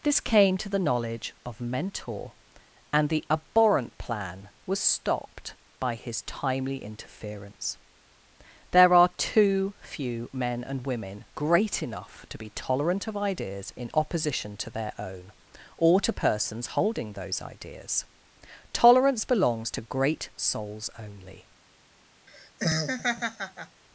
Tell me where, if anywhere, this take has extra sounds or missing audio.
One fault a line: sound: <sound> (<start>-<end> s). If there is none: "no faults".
sound: laugh (22.3-23.8 s)